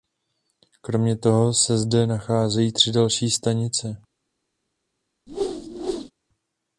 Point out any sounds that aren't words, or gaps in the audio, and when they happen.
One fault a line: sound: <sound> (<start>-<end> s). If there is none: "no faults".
sound: whoosh (5.3-6.1 s)